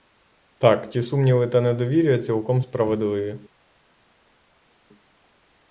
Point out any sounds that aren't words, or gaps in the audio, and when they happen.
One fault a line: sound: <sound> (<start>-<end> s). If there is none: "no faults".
no faults